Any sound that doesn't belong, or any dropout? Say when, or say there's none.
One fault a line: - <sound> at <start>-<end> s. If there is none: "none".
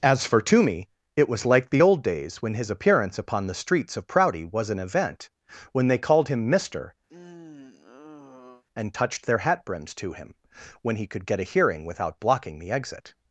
- sigh at 7.1-8.6 s